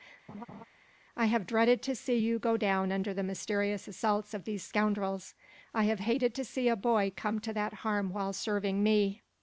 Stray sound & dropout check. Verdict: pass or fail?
fail